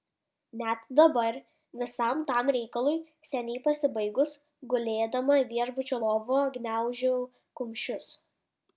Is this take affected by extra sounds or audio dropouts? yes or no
no